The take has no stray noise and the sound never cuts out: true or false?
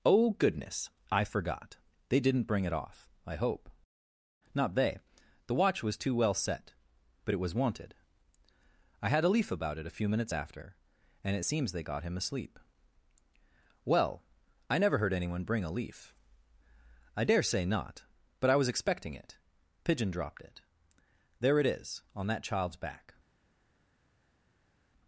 true